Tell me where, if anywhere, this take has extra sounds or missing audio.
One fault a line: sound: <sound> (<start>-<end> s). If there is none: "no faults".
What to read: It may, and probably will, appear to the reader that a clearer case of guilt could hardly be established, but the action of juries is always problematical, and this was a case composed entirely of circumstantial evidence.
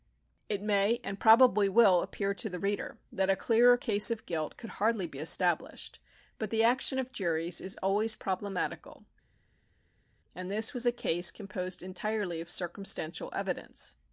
no faults